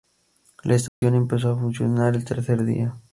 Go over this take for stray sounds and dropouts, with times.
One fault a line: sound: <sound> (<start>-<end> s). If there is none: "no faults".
sound: dropout (0.9-1.0 s)